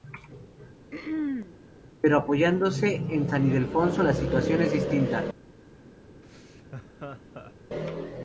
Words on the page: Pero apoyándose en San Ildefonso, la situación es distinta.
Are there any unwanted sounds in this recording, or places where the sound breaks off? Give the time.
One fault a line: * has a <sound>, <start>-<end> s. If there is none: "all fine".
* has a throat clearing, 0.9-1.6 s
* has a laugh, 6.2-7.5 s